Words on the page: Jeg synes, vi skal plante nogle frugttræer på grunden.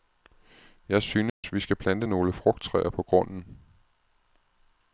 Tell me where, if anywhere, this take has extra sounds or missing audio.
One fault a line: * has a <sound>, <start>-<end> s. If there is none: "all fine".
* has a dropout, 1.3-1.4 s